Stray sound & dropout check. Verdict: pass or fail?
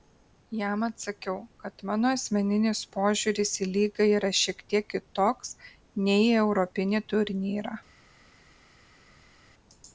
pass